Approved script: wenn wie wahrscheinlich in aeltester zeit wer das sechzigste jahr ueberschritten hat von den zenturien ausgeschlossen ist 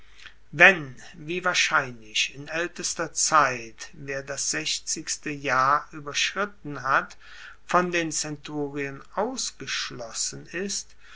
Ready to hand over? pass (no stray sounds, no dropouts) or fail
pass